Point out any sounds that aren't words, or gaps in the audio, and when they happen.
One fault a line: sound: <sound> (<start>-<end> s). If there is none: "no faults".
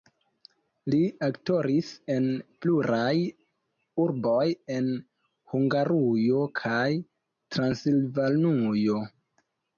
no faults